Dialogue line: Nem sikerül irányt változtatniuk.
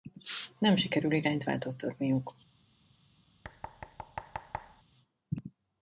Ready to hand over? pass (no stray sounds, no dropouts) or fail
fail